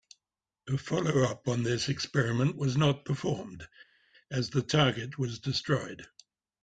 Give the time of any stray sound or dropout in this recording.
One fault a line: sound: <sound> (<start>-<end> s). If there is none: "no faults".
no faults